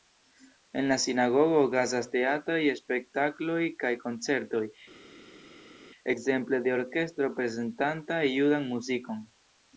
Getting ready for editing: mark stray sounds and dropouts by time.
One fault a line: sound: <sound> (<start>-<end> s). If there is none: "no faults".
no faults